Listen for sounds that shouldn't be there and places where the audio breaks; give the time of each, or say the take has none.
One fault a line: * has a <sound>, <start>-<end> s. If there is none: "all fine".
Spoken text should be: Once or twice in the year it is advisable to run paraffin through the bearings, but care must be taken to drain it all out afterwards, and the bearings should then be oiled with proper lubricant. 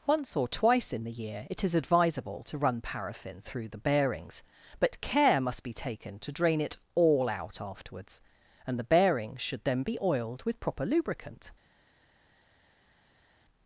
all fine